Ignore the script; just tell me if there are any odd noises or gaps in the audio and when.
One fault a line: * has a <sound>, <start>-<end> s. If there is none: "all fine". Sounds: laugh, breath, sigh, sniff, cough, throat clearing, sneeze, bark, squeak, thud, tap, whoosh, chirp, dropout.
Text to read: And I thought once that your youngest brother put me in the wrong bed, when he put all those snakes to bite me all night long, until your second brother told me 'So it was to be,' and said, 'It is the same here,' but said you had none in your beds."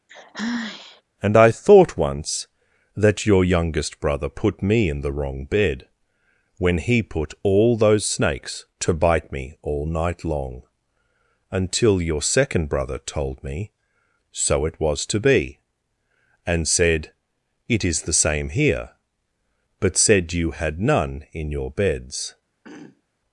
* has a sigh, 0.1-1.0 s
* has a throat clearing, 22.6-23.0 s